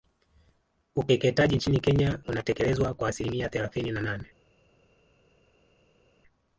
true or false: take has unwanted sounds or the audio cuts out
false